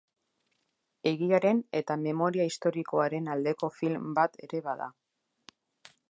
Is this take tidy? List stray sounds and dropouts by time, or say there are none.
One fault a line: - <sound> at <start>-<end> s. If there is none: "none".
none